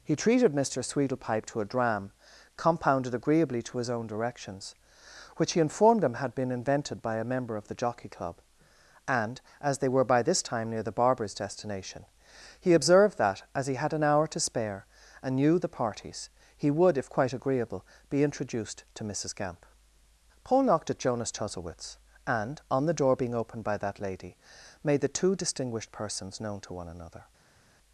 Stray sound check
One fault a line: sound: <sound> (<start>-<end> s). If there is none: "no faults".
no faults